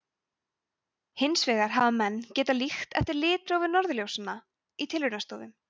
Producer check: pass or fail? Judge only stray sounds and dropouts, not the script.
pass